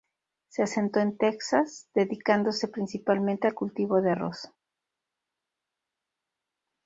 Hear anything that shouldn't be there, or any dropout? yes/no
no